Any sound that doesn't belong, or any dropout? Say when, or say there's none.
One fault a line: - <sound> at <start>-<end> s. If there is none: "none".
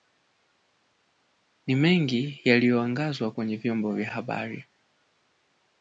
none